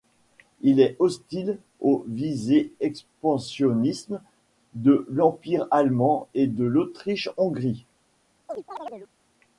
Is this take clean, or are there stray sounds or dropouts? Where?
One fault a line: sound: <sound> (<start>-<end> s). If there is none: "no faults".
sound: chirp (8.5-9.1 s)